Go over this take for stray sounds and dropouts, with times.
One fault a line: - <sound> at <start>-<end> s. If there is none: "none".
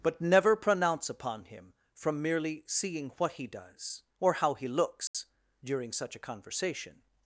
- dropout at 5.1-5.1 s